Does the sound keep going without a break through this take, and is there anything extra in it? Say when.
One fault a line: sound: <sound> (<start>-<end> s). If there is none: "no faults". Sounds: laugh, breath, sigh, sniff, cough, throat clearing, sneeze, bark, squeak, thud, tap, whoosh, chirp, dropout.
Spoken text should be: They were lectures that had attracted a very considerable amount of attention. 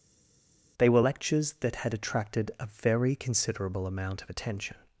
no faults